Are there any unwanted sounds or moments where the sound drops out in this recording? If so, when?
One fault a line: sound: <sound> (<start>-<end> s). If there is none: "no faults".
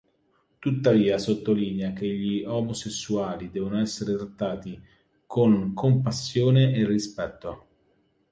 no faults